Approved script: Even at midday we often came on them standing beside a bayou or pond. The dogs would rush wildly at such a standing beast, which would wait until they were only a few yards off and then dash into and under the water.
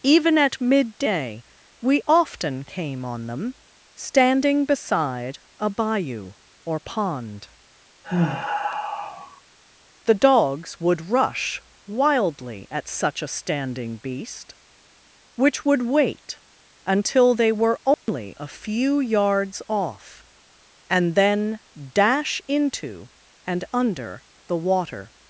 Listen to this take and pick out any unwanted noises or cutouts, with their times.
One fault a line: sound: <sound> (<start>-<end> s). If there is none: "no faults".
sound: sigh (8.0-9.4 s)
sound: dropout (17.9-18.1 s)